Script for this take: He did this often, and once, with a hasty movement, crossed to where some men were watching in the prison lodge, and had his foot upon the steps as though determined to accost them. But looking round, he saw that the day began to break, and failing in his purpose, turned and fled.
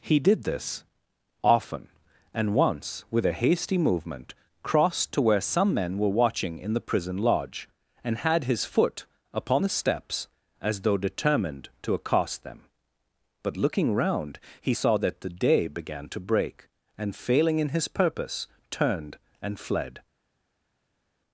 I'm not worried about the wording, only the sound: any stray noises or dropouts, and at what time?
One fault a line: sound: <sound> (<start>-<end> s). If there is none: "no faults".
no faults